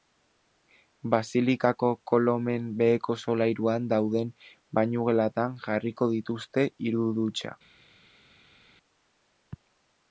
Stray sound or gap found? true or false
false